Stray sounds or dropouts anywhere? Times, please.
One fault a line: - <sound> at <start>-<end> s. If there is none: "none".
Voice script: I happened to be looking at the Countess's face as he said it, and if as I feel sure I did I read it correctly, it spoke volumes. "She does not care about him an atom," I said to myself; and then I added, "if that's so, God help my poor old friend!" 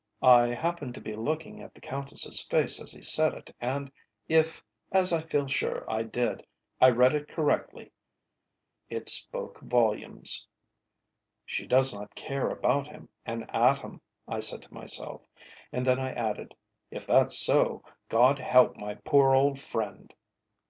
none